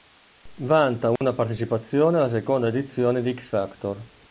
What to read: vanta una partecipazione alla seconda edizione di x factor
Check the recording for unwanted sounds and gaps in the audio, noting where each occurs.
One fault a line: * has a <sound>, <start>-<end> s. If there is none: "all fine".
* has a dropout, 1.2-1.2 s